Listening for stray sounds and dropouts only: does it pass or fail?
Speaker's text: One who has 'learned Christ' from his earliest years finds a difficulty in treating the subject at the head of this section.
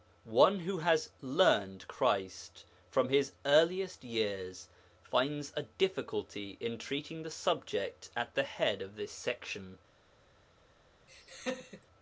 fail